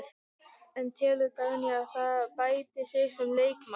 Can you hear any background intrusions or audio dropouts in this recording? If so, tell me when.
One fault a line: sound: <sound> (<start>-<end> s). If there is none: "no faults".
no faults